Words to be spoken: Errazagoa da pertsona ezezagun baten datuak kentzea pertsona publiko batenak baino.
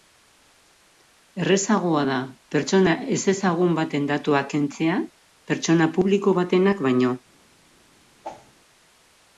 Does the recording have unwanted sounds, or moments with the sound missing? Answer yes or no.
yes